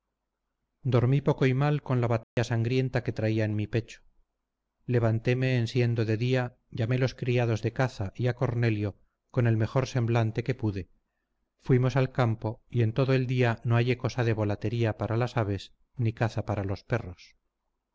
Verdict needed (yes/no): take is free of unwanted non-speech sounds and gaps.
no